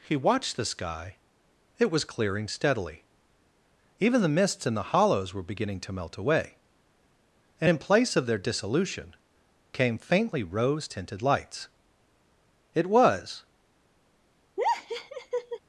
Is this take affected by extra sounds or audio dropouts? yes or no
yes